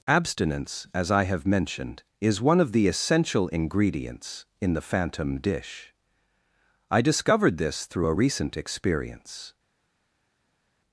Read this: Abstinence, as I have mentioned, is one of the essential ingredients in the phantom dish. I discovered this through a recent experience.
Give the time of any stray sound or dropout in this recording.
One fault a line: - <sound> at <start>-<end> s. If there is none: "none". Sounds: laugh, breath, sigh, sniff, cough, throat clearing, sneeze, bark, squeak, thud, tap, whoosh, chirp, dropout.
none